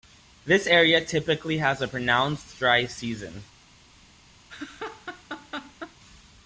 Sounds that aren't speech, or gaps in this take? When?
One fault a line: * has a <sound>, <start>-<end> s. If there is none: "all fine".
* has a laugh, 4.5-6.0 s